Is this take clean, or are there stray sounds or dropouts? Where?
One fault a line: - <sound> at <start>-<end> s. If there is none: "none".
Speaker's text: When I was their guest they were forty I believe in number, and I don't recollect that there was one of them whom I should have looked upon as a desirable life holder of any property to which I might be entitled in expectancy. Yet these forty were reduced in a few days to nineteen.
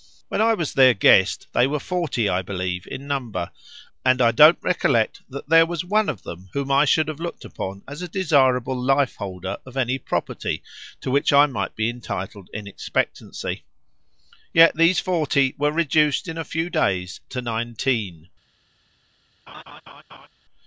- laugh at 19.5-20.3 s